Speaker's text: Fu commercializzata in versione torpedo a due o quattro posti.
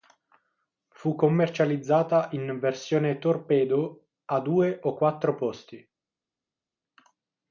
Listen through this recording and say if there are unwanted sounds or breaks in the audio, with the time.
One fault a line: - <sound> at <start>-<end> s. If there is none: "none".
none